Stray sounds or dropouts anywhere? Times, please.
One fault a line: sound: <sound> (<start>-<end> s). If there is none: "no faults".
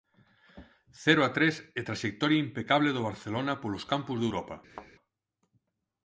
sound: thud (4.7-4.9 s)